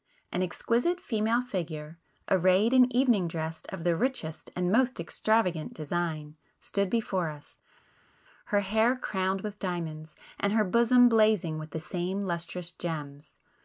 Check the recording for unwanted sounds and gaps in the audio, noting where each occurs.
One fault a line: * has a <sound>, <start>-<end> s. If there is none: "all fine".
all fine